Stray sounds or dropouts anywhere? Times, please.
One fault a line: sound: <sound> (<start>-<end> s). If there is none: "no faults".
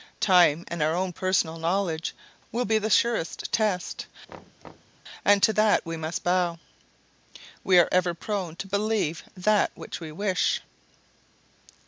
sound: thud (4.3-5.0 s)